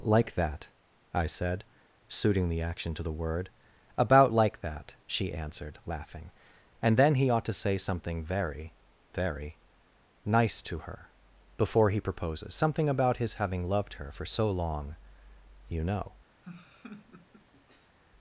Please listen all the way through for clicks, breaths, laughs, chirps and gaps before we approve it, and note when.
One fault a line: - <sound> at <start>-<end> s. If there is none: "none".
- laugh at 16.4-18.0 s